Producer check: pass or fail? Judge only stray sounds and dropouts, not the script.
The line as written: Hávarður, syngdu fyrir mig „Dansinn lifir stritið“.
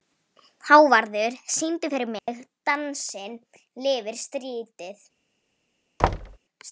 fail